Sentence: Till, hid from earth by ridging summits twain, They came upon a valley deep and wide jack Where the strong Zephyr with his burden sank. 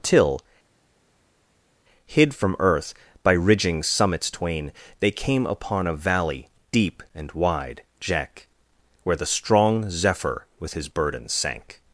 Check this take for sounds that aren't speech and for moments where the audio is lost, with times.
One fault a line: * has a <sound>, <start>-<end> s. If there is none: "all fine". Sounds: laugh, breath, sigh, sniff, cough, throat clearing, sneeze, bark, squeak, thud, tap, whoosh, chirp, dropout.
all fine